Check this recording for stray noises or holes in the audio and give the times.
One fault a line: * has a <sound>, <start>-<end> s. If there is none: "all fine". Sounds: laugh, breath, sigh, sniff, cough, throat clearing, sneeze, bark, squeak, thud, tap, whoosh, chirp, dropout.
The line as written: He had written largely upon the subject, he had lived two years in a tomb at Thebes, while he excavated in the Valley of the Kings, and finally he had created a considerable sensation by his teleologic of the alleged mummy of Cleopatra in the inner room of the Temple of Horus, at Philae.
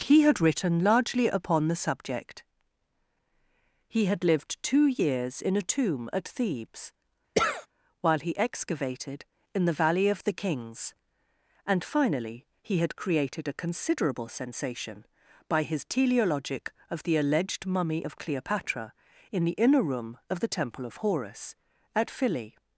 * has a sneeze, 7.3-7.7 s